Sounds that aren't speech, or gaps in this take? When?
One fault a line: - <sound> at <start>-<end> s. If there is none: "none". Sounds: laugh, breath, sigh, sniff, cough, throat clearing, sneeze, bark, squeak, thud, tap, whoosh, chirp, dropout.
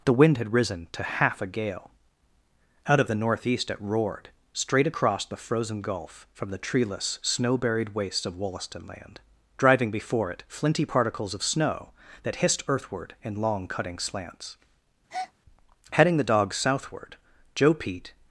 - breath at 15.1-15.3 s